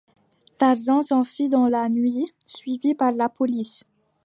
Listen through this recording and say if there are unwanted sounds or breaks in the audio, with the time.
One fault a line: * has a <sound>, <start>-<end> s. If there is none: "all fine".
all fine